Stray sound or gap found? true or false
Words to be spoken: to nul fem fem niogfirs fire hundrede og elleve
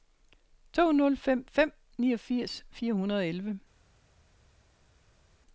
false